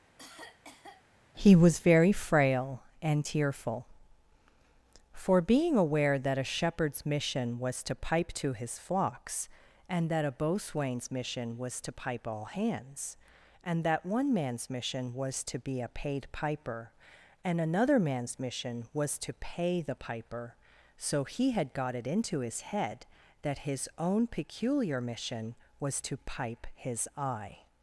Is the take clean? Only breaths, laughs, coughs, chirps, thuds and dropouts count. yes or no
no